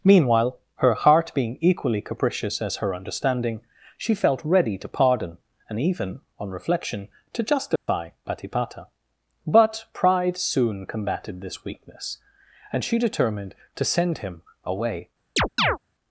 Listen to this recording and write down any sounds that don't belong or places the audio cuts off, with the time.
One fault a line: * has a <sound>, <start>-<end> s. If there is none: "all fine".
* has a dropout, 7.8-7.9 s
* has a chirp, 15.4-15.8 s